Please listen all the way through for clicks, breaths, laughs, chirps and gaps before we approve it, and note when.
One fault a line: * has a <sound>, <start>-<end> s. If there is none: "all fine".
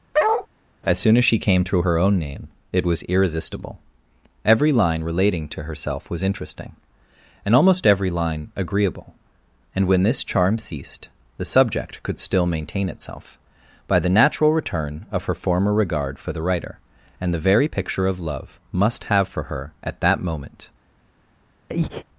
* has a bark, 0.1-0.5 s
* has a breath, 21.7-22.0 s